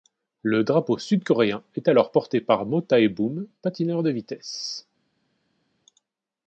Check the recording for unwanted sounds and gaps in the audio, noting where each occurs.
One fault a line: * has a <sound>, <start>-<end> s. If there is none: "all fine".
all fine